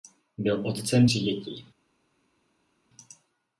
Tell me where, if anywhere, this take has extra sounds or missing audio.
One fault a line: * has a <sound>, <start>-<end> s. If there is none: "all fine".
all fine